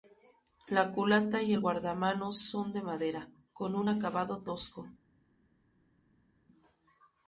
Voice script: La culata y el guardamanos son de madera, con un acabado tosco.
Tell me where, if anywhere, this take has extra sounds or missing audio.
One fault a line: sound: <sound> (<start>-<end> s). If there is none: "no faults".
no faults